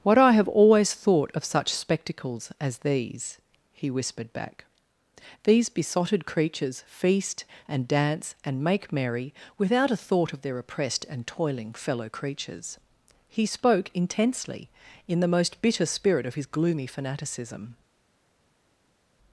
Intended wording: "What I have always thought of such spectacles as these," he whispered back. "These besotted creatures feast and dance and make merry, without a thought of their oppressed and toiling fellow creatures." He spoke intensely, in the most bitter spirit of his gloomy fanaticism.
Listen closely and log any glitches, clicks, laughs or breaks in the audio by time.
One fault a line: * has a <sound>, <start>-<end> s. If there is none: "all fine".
all fine